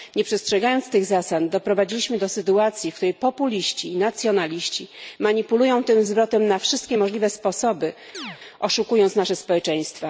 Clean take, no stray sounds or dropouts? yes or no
no